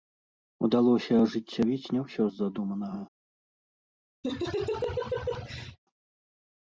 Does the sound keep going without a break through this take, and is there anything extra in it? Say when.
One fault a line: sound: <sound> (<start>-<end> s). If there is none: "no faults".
sound: laugh (4.2-5.8 s)